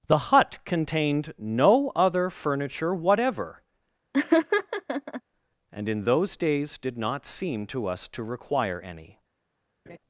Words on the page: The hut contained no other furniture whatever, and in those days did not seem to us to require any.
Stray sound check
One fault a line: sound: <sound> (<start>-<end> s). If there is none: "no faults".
sound: laugh (4.1-5.2 s)
sound: laugh (9.9-10.0 s)